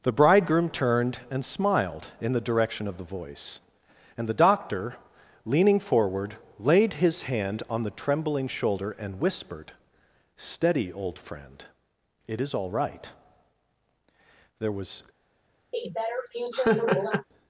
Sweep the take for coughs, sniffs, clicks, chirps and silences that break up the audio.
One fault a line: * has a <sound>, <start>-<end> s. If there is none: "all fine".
* has a laugh, 15.7-17.3 s